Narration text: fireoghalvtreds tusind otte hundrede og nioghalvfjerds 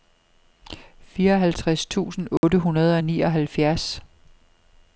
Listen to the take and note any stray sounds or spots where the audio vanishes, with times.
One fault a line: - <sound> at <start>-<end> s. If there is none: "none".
- dropout at 2.4-2.4 s